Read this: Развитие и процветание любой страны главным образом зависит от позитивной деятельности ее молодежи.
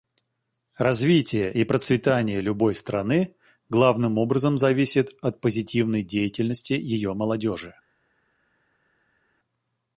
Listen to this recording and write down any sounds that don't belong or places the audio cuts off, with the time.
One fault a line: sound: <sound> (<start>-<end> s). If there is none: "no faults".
no faults